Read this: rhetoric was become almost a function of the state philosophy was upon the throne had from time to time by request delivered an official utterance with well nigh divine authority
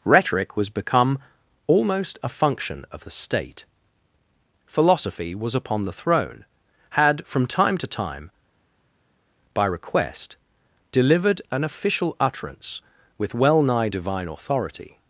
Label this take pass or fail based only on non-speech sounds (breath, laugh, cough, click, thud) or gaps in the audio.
pass